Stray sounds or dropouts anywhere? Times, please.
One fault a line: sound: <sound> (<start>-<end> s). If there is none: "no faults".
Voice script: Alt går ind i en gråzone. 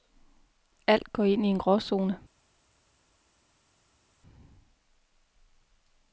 no faults